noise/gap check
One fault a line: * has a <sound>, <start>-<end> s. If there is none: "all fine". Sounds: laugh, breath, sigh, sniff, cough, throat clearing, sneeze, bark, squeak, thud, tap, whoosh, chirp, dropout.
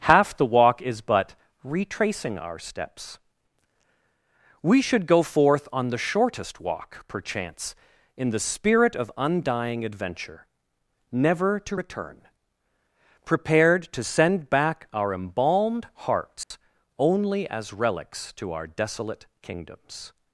* has a dropout, 16.4-16.5 s